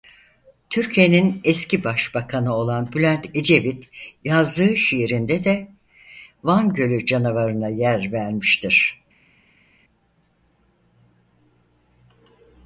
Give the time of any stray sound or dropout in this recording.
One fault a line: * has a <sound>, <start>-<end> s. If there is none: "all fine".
all fine